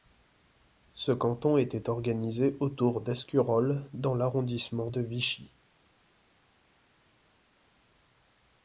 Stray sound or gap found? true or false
false